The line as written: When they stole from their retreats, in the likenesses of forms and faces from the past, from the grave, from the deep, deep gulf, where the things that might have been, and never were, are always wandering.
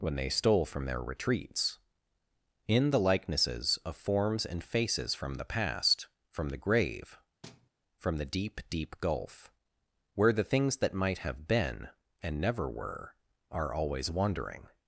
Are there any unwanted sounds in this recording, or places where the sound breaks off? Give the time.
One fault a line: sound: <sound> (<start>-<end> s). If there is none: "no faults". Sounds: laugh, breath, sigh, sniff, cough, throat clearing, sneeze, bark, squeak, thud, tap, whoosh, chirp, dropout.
sound: thud (7.4-7.7 s)